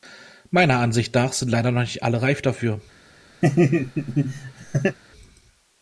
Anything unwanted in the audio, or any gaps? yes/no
yes